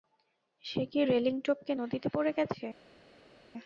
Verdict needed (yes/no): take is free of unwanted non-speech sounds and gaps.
yes